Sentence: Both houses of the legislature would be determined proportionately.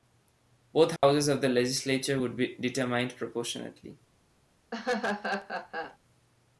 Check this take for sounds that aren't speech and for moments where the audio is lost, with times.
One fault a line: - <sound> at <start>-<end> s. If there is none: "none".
- dropout at 1.0-1.0 s
- laugh at 4.7-6.0 s